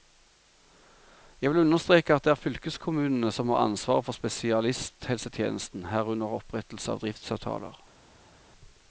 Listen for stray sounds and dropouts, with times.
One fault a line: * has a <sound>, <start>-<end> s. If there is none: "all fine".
all fine